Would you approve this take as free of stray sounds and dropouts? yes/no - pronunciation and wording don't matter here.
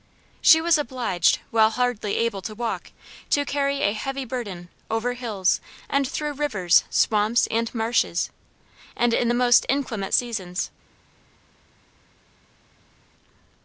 yes